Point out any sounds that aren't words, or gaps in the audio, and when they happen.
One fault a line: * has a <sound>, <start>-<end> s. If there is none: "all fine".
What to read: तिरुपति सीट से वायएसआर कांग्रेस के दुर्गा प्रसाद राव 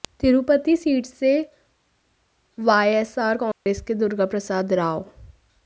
* has a dropout, 3.5-3.7 s